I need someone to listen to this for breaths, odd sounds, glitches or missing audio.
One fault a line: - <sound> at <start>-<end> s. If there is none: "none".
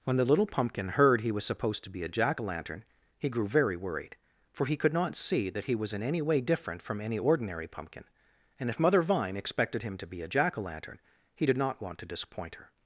none